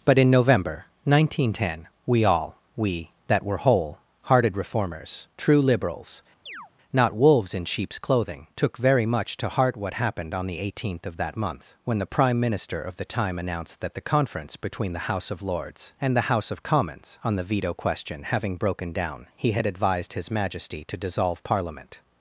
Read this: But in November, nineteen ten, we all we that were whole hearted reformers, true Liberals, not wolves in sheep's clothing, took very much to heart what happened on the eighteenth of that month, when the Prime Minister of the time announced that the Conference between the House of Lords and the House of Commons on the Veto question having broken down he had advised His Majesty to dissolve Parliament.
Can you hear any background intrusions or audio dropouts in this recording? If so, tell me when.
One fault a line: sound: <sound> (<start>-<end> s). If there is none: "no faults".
sound: chirp (6.5-6.7 s)